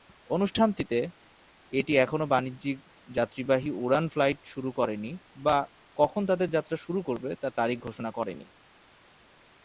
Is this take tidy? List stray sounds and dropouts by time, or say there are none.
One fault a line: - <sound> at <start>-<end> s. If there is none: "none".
none